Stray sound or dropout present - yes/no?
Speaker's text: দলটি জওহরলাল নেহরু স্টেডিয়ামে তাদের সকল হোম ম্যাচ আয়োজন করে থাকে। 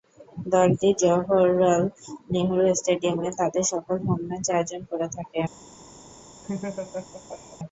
yes